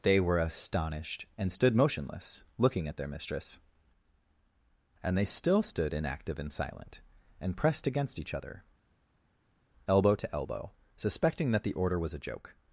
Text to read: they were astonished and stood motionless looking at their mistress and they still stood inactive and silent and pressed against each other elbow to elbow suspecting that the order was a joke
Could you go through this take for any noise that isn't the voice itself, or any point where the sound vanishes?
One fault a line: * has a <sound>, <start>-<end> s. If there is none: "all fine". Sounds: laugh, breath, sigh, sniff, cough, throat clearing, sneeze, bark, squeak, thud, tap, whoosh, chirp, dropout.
all fine